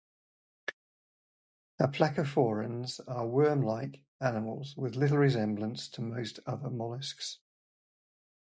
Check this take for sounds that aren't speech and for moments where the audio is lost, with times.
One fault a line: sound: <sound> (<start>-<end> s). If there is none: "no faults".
no faults